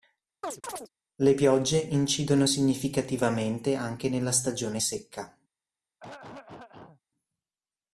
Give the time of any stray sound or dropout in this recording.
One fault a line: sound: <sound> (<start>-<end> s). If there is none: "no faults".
sound: chirp (0.4-0.9 s)
sound: throat clearing (6.0-7.0 s)